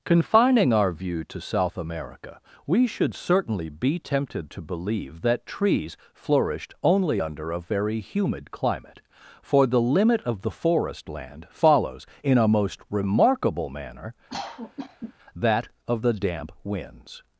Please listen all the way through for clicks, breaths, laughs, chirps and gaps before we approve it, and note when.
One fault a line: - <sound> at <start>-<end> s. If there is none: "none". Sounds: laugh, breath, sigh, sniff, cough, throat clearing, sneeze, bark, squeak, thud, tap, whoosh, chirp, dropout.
- cough at 14.3-15.1 s